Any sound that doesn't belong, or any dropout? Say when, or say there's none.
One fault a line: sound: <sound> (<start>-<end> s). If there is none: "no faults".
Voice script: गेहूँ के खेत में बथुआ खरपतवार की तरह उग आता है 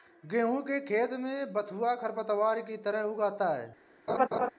sound: laugh (4.1-4.5 s)